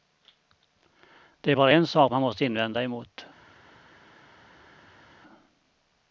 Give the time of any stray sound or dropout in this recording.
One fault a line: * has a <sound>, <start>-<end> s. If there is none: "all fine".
all fine